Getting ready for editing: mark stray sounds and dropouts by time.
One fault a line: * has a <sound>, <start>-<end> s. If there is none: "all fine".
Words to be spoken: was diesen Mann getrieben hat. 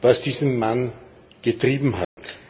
* has a dropout, 2.0-2.2 s